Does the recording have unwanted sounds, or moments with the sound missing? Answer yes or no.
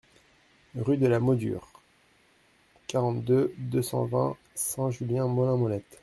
no